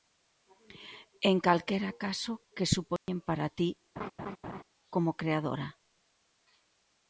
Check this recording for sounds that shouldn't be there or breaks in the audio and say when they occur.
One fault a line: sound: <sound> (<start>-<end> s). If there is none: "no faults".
sound: dropout (3.0-3.1 s)
sound: laugh (4.0-4.6 s)